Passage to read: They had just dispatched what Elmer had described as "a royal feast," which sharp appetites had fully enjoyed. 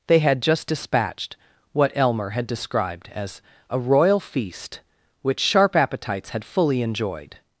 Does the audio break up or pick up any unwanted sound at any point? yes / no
no